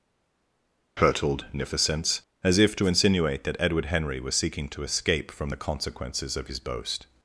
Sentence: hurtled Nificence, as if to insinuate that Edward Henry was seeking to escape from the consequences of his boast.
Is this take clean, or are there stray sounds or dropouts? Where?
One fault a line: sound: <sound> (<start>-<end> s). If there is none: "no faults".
no faults